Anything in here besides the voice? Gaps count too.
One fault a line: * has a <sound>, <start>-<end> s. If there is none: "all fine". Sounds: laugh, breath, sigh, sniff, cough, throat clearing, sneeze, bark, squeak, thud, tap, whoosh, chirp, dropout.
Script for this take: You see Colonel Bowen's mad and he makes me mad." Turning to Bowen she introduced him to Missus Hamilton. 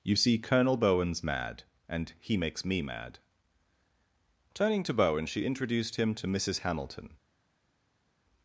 all fine